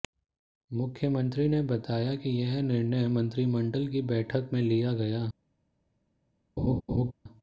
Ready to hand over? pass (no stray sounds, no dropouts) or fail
fail